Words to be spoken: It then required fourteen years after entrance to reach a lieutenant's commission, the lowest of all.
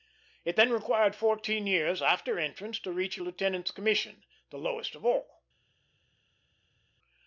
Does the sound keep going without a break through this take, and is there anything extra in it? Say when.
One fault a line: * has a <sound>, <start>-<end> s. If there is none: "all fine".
all fine